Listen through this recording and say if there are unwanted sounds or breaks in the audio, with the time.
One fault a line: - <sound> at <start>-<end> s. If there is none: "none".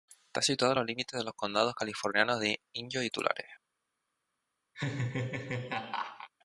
- laugh at 4.7-6.3 s